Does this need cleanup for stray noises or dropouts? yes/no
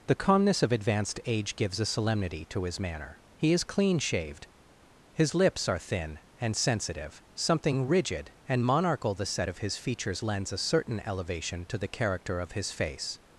no